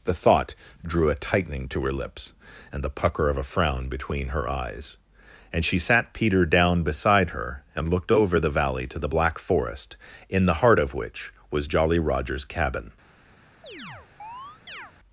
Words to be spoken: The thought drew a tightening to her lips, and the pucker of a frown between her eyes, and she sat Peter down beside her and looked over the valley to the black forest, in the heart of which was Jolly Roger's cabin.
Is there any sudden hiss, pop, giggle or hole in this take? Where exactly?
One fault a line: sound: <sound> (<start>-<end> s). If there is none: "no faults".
sound: chirp (13.6-14.9 s)